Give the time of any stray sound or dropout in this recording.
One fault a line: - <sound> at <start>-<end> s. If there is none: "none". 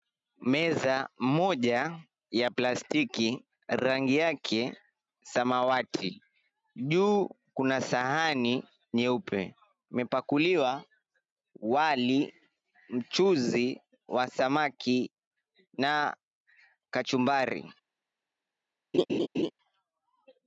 - laugh at 18.9-19.5 s